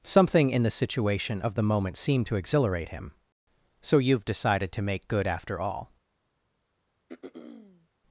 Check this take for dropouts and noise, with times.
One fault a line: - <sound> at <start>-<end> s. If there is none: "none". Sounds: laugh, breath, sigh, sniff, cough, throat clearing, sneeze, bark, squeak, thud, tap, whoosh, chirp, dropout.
- throat clearing at 7.1-7.9 s